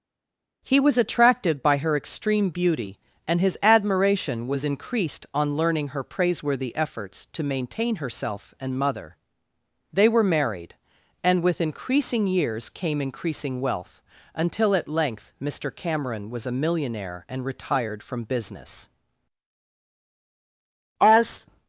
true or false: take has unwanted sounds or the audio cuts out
false